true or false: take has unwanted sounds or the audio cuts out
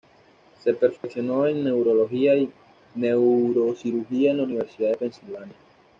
true